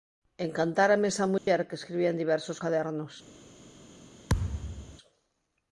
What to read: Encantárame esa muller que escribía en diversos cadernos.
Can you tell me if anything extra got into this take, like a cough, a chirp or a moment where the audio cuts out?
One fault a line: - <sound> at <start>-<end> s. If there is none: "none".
- dropout at 1.4-1.5 s
- thud at 4.3-5.0 s